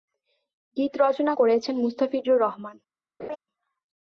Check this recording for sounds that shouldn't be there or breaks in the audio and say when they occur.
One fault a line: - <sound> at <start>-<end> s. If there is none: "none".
- laugh at 3.2-3.4 s